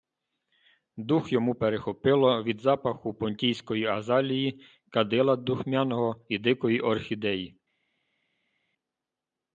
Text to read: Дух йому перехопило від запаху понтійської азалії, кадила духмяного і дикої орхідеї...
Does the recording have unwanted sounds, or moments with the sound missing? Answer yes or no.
no